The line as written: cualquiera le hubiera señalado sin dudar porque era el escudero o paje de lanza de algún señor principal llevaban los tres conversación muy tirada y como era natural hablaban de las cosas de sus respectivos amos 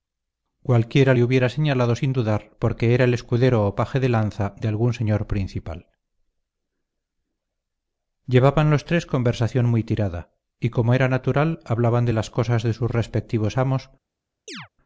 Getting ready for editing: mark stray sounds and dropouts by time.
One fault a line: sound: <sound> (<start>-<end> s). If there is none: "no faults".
sound: chirp (14.5-14.7 s)